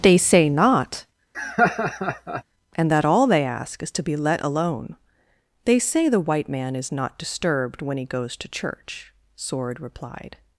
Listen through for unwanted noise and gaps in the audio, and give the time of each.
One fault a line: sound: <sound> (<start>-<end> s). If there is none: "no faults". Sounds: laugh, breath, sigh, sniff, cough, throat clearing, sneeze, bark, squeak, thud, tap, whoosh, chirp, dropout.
sound: laugh (1.3-2.4 s)